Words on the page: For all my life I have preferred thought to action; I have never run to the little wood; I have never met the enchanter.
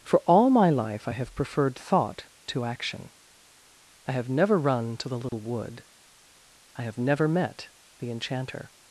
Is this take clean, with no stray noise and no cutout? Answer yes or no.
no